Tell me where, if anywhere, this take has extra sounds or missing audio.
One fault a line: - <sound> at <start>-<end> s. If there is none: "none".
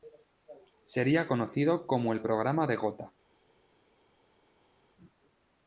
none